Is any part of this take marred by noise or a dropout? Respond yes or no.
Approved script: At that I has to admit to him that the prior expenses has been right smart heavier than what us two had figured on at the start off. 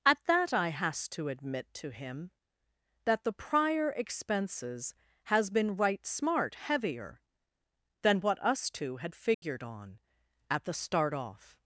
yes